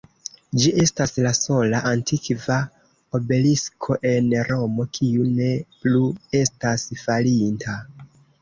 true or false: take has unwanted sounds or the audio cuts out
false